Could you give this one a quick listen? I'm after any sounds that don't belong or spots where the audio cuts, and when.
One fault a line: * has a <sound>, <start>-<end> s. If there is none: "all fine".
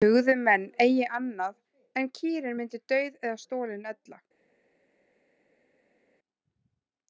all fine